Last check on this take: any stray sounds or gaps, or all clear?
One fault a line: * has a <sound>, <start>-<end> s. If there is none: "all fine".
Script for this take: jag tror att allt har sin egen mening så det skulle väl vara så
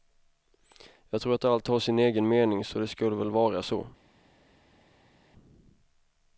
all fine